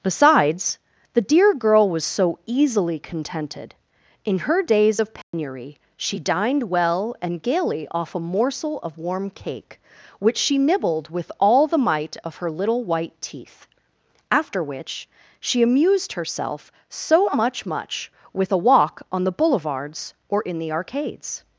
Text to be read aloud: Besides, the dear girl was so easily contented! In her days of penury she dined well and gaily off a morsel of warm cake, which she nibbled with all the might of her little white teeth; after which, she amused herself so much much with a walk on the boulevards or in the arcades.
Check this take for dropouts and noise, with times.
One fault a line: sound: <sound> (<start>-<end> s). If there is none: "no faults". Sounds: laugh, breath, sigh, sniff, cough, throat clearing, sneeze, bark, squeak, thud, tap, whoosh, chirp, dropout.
sound: dropout (5.2-5.3 s)